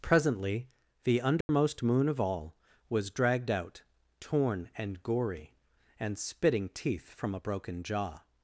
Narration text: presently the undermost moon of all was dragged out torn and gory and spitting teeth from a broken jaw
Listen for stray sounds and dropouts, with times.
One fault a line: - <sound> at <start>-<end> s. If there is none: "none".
- dropout at 1.4-1.5 s